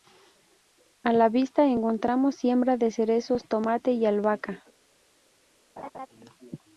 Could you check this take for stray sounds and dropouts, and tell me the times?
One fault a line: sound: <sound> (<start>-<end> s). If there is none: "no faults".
sound: laugh (5.8-6.1 s)